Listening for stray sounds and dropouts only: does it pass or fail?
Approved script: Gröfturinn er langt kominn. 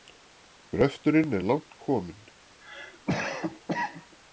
fail